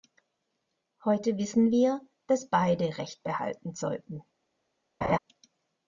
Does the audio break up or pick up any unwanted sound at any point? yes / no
yes